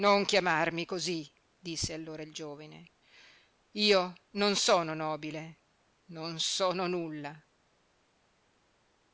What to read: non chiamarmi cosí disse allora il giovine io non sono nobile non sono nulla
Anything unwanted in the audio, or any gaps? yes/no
no